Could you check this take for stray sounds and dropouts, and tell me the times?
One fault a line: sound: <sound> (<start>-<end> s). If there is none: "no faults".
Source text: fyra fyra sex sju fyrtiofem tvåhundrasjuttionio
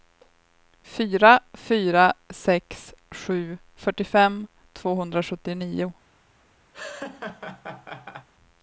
sound: laugh (6.7-8.3 s)